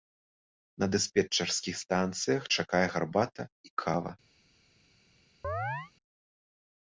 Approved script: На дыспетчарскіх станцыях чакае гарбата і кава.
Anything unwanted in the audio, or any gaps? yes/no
yes